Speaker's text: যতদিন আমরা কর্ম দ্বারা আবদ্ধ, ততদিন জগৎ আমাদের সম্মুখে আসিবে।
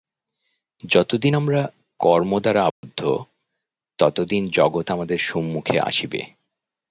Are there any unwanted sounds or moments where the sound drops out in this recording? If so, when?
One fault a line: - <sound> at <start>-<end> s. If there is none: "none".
- dropout at 2.7-2.8 s